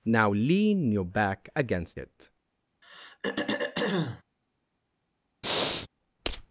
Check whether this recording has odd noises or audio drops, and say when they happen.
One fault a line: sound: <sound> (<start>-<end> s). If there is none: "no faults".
sound: throat clearing (2.8-4.2 s)
sound: breath (5.4-5.9 s)